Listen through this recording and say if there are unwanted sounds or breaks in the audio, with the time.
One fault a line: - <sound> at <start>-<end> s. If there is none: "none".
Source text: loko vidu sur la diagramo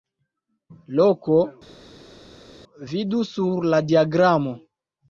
none